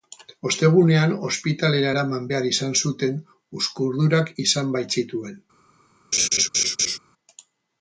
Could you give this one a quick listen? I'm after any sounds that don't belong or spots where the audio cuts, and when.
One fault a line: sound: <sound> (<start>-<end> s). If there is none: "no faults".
sound: laugh (6.1-7.0 s)